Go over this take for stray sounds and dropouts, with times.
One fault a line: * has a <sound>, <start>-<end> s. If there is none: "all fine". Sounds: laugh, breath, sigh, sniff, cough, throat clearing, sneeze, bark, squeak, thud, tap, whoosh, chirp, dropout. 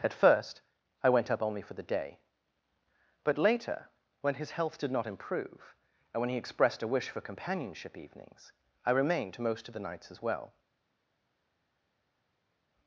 all fine